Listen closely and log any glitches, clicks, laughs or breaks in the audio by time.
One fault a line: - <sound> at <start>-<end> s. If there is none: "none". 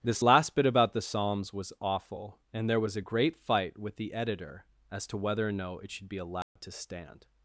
- dropout at 6.4-6.6 s